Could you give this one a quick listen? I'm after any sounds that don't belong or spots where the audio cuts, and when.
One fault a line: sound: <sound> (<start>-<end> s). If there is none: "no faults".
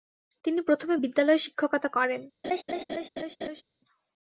sound: laugh (2.4-3.6 s)